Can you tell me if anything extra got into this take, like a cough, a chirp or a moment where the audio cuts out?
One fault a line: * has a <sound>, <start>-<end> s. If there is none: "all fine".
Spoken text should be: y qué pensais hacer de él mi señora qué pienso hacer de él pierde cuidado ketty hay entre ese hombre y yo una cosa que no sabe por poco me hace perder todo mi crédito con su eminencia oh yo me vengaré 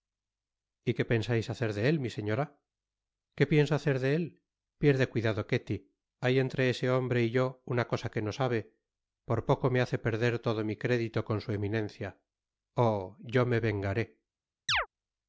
* has a chirp, 14.7-14.9 s